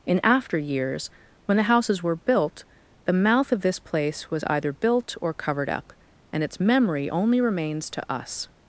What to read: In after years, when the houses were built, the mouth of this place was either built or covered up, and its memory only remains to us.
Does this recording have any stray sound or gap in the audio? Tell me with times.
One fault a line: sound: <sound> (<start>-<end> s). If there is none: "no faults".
no faults